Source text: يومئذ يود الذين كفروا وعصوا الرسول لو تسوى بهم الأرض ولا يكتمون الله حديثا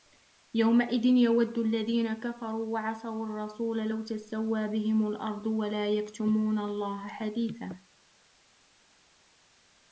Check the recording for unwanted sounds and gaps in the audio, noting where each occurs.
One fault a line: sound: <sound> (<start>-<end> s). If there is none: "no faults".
no faults